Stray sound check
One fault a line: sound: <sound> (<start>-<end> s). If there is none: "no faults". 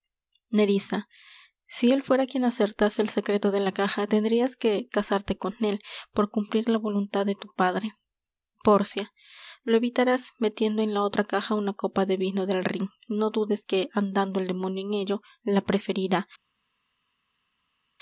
no faults